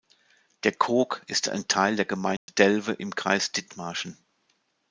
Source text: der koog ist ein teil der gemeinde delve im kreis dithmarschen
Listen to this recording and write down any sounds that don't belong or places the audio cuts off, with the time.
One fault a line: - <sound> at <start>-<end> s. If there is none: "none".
- dropout at 2.4-2.5 s